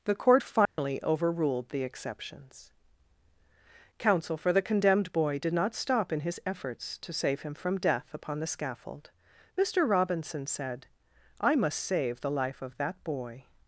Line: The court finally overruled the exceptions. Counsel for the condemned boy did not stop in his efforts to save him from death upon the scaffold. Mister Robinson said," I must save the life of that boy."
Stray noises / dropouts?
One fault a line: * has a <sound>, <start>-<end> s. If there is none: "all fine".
* has a dropout, 0.7-0.8 s